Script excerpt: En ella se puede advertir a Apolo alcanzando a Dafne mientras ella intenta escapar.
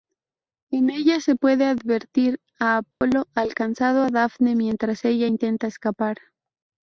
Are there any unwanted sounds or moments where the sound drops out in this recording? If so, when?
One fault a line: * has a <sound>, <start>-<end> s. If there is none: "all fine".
* has a dropout, 2.9-3.0 s